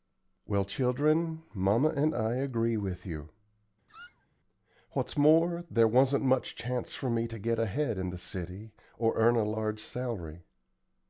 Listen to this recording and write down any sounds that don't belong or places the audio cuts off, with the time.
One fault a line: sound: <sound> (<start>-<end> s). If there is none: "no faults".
sound: squeak (3.9-4.3 s)